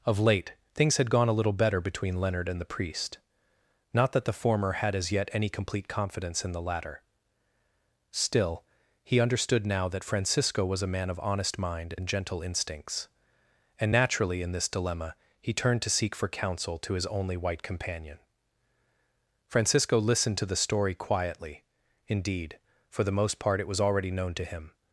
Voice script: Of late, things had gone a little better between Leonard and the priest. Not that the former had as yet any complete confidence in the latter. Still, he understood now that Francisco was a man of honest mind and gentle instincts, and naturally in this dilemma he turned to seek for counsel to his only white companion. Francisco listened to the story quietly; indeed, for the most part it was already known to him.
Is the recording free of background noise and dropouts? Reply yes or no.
yes